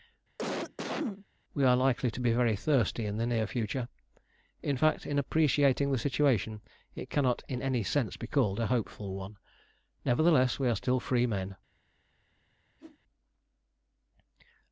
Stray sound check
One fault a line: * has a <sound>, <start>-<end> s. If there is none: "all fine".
* has a cough, 0.4-1.3 s
* has a whoosh, 12.8-13.0 s